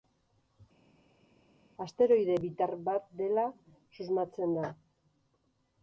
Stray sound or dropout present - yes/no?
no